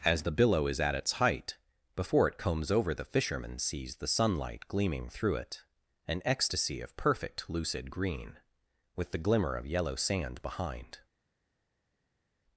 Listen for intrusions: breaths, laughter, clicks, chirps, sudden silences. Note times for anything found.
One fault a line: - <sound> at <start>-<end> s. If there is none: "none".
none